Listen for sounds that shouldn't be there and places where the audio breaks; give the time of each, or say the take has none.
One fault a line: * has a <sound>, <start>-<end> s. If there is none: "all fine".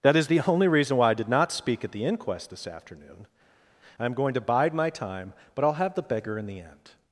all fine